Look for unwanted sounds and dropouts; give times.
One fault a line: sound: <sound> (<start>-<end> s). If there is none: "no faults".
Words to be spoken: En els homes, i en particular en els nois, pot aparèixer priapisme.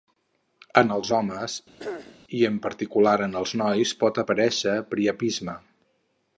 sound: throat clearing (1.8-2.2 s)